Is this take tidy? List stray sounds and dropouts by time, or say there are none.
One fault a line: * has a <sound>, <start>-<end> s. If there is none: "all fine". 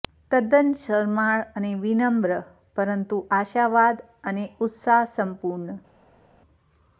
all fine